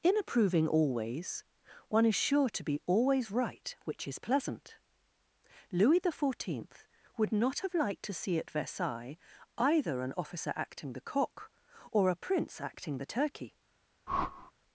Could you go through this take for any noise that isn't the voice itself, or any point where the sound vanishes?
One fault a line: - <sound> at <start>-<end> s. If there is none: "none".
- whoosh at 14.1-14.5 s